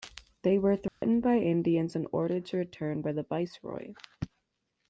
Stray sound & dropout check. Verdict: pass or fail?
fail